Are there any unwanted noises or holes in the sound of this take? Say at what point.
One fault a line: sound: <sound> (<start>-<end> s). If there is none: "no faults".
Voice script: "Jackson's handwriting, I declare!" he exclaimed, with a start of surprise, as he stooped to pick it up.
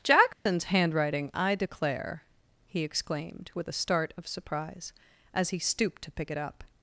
sound: dropout (0.3-0.5 s)